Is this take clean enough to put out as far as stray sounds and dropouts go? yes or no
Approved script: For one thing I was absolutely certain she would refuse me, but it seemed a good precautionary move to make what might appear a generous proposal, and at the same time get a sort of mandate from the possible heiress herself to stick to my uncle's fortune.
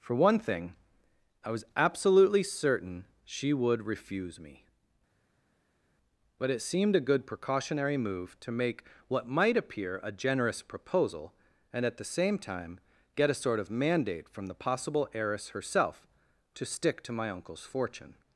yes